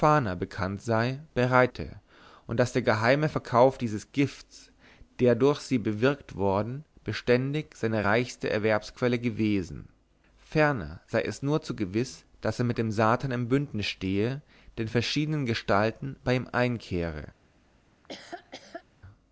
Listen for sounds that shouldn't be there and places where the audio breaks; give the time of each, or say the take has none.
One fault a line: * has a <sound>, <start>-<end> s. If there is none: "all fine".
* has a laugh, 17.9-18.8 s